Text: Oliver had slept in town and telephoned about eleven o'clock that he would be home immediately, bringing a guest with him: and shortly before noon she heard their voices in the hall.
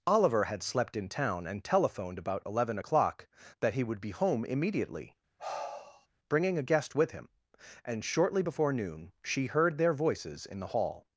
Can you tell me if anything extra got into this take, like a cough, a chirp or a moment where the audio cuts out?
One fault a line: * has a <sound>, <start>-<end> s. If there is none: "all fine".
* has a sigh, 5.4-6.1 s